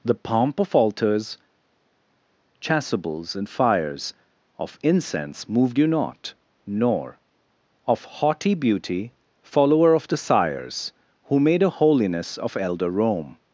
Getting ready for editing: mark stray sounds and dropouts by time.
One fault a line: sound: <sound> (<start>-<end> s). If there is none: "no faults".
no faults